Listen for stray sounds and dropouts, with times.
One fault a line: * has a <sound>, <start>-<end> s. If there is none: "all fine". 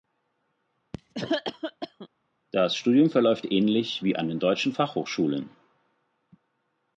* has a cough, 0.9-2.1 s